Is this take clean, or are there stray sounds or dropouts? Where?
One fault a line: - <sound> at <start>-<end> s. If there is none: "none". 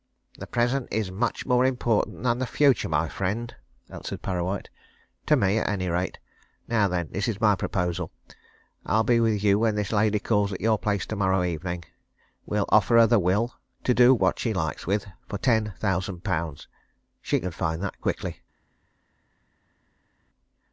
none